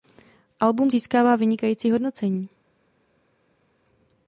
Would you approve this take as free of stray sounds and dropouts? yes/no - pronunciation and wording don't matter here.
yes